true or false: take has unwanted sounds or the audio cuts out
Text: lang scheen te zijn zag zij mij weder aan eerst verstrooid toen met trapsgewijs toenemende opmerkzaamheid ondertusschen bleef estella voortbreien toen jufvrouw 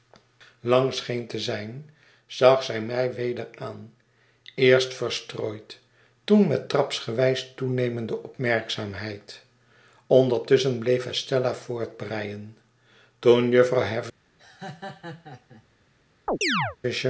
true